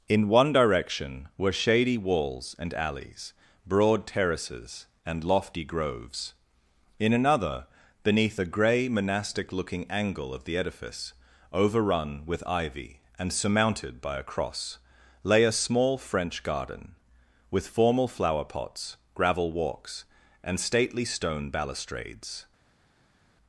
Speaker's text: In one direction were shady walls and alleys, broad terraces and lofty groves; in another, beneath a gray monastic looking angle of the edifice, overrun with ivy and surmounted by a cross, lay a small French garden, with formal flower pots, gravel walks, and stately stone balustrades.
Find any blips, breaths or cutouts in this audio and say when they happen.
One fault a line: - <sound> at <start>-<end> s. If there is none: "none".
none